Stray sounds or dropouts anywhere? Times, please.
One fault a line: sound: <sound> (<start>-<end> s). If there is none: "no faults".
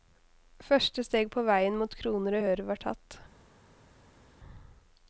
no faults